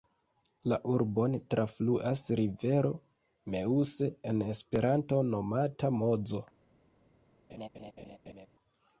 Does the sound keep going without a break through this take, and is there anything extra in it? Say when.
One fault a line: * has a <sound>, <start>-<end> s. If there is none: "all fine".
* has a laugh, 7.5-8.5 s